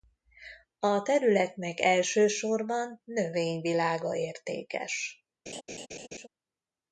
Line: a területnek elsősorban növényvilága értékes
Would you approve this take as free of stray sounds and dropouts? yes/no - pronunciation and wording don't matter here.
no